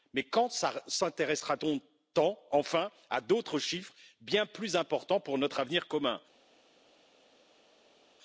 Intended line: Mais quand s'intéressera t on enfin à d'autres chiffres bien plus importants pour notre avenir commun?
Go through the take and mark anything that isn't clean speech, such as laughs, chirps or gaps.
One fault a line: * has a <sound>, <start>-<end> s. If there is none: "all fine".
all fine